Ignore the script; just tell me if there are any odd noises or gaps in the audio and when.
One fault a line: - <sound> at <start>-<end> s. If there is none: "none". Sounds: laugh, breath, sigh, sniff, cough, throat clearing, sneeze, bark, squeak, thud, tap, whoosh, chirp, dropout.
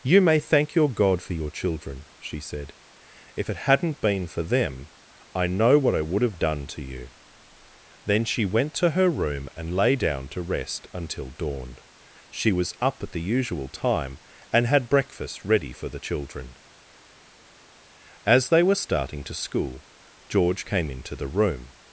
none